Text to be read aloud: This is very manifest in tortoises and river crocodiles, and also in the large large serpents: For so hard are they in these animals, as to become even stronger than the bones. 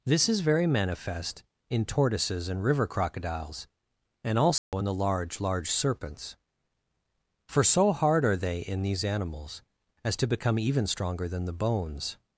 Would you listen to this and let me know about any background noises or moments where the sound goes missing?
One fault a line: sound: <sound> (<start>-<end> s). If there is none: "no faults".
sound: dropout (4.6-4.7 s)